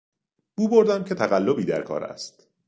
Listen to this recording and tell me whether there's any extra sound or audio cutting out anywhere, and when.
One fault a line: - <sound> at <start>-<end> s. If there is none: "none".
none